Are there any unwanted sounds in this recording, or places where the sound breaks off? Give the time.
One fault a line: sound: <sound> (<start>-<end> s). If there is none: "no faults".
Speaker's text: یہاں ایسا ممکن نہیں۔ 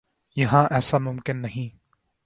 no faults